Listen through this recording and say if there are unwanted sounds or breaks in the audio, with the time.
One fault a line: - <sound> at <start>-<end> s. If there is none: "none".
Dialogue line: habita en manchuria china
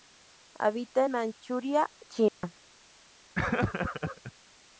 - dropout at 2.3-2.4 s
- laugh at 3.4-4.3 s